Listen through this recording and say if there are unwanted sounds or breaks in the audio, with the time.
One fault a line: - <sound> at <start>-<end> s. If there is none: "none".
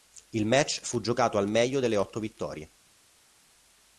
none